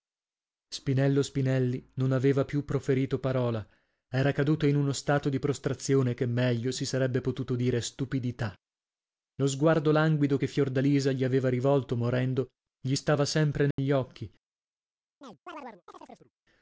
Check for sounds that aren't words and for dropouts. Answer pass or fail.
fail